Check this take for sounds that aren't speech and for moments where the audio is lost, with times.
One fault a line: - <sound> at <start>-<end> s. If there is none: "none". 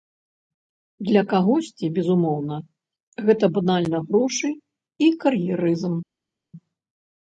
none